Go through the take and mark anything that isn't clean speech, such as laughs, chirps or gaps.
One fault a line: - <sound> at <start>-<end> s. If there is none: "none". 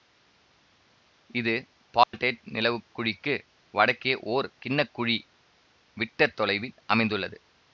- dropout at 2.0-2.1 s